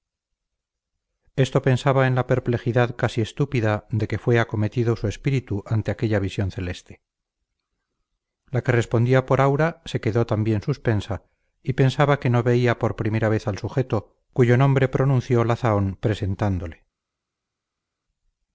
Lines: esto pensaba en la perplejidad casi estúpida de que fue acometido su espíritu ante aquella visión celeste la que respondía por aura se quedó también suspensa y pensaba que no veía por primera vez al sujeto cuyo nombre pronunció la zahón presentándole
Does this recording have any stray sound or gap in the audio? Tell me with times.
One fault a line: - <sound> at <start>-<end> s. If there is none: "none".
none